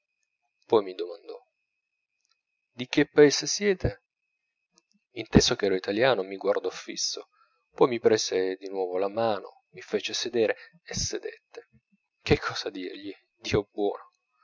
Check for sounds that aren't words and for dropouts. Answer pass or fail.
pass